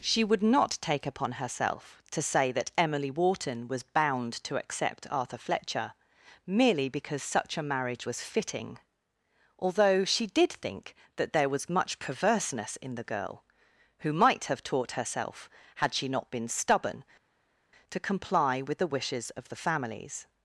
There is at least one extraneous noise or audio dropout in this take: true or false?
false